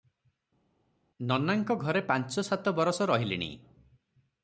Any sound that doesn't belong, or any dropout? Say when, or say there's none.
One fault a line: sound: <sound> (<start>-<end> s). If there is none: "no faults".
no faults